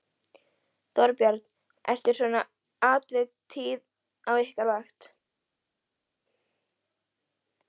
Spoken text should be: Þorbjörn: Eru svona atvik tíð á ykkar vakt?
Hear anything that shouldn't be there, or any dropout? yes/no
no